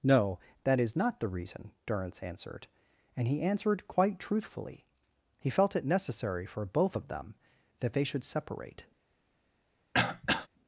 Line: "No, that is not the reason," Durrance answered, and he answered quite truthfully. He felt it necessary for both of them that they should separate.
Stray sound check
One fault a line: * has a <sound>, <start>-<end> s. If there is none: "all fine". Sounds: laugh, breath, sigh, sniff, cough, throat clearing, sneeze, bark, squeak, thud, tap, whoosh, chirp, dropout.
* has a throat clearing, 9.9-10.5 s